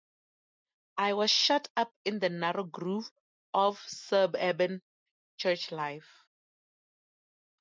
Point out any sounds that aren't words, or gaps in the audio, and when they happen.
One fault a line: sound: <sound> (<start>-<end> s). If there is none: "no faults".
no faults